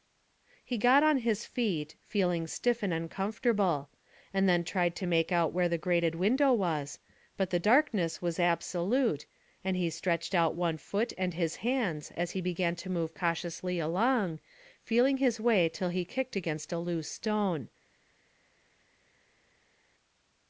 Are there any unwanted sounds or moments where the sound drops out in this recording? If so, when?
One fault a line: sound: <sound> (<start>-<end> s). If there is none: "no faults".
no faults